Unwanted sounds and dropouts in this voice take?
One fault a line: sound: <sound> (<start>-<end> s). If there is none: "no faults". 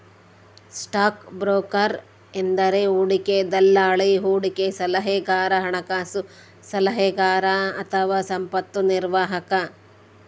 no faults